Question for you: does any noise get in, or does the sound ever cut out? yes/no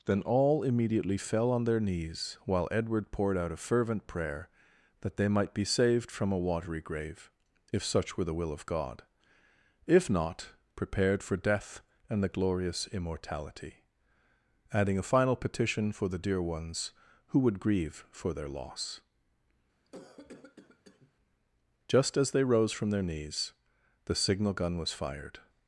yes